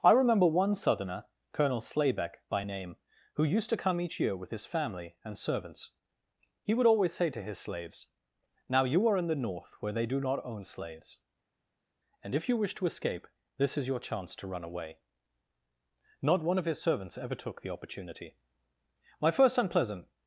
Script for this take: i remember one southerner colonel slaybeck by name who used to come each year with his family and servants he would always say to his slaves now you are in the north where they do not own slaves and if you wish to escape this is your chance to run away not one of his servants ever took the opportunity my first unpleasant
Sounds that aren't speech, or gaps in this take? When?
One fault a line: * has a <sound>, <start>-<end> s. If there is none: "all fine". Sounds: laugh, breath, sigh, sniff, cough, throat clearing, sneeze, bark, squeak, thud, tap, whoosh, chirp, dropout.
all fine